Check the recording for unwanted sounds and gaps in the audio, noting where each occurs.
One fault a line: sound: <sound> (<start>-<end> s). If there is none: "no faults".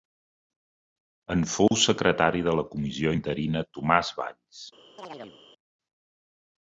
sound: dropout (1.7-1.7 s)
sound: chirp (5.0-5.4 s)